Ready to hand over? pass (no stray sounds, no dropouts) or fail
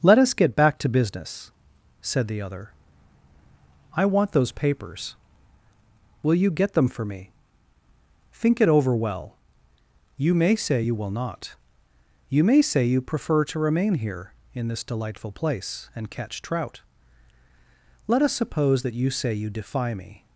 pass